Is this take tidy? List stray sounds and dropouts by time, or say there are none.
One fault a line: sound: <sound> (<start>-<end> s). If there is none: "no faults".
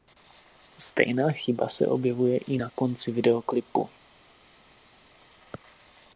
no faults